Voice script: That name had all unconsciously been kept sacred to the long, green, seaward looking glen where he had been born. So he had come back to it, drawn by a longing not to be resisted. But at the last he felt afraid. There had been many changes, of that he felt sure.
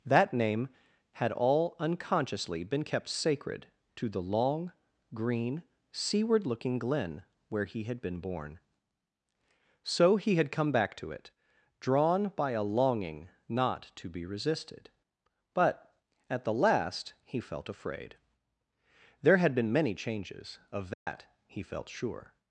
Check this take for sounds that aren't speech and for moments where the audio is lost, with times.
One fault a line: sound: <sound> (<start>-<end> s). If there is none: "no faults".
sound: dropout (20.9-21.1 s)